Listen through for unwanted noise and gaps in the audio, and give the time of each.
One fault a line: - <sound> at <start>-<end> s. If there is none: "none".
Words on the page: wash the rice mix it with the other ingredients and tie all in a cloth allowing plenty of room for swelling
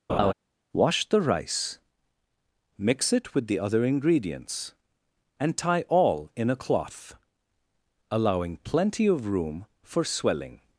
- laugh at 0.1-0.3 s